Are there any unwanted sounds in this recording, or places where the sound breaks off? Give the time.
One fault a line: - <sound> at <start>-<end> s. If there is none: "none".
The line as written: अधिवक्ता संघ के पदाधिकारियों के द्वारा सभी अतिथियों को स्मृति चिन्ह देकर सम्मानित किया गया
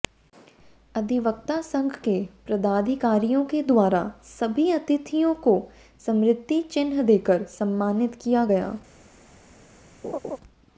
- laugh at 10.0-10.4 s